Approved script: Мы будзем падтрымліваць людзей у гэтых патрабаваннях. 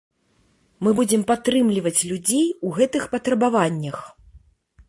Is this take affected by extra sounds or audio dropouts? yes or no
no